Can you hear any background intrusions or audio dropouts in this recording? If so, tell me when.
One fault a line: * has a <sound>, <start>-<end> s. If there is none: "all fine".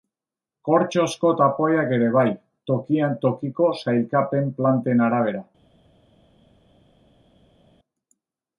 all fine